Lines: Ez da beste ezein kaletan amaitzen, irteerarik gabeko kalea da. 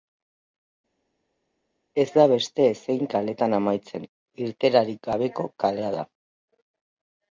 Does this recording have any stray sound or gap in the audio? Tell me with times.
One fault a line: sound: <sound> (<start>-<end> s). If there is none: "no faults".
no faults